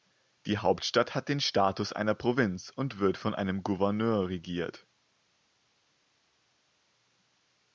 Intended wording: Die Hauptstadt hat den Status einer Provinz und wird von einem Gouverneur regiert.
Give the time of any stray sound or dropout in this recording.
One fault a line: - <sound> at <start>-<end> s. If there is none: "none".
none